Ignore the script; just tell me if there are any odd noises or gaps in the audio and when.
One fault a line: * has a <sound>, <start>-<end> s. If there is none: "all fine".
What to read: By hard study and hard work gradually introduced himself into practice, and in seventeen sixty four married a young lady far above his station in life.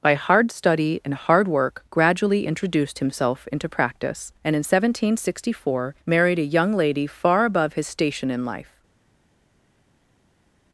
all fine